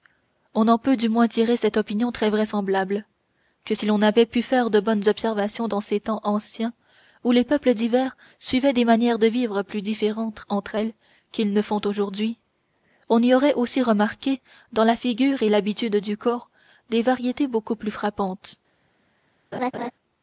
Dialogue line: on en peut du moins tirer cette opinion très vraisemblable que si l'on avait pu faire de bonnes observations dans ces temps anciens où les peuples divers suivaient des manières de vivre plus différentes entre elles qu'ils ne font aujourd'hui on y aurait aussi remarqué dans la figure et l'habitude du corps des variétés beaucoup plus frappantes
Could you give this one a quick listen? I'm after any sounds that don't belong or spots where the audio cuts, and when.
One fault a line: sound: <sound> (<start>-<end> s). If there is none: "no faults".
sound: laugh (19.5-19.9 s)